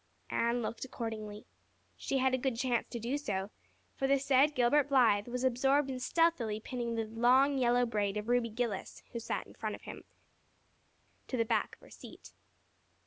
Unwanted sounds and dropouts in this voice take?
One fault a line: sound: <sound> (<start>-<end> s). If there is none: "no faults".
no faults